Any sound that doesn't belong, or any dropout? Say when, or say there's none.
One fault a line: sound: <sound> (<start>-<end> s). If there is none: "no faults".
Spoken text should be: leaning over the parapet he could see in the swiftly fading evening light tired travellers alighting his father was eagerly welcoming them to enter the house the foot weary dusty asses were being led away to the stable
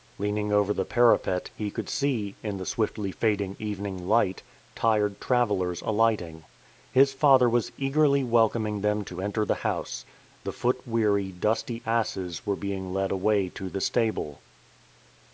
no faults